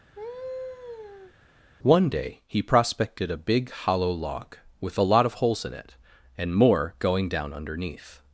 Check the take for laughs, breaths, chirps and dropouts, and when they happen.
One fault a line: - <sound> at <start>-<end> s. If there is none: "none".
- laugh at 0.1-1.3 s